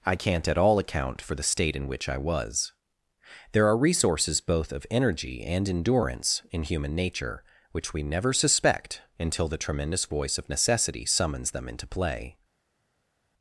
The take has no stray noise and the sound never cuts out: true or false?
true